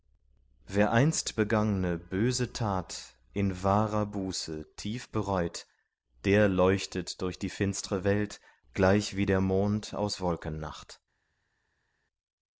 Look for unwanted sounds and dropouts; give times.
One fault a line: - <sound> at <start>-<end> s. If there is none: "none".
none